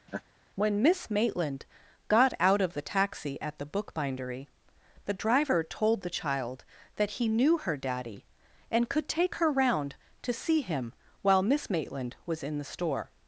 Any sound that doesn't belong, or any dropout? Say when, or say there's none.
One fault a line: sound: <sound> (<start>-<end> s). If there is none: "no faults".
sound: laugh (0.1-0.2 s)